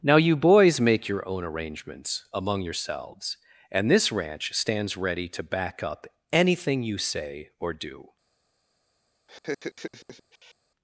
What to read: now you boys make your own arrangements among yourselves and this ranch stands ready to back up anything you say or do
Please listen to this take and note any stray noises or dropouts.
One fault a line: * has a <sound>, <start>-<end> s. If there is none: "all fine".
* has a laugh, 9.3-10.5 s